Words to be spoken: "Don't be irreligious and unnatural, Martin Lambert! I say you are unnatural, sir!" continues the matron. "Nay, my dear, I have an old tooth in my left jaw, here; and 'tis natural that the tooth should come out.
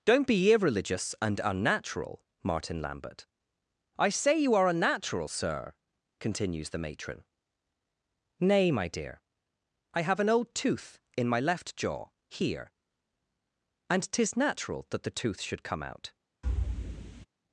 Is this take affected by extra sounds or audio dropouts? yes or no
yes